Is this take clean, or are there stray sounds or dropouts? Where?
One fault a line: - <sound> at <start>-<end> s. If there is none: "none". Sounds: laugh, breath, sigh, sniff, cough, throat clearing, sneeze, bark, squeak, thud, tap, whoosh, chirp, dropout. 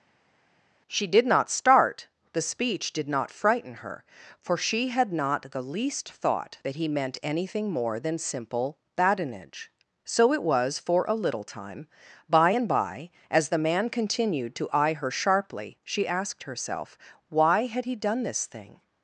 none